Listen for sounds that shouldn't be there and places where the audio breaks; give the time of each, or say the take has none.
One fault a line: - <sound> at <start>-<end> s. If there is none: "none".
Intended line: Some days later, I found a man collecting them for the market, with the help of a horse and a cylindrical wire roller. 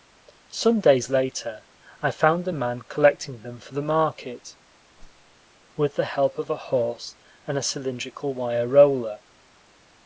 - whoosh at 5.0-5.4 s